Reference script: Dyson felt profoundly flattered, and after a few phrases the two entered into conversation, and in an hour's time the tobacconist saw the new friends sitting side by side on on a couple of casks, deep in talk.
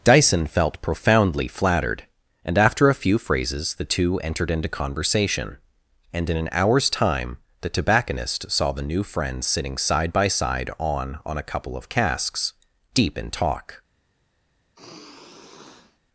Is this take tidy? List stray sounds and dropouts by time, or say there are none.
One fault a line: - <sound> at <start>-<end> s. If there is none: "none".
- sigh at 14.8-16.0 s